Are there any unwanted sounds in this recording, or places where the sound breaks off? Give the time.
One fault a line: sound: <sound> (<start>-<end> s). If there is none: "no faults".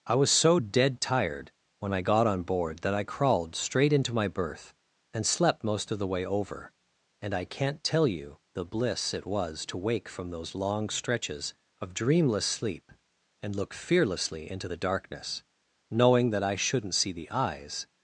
no faults